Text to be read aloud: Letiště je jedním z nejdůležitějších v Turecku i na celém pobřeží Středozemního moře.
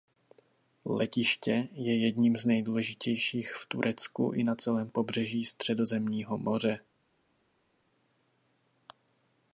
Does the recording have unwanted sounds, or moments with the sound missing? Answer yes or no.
no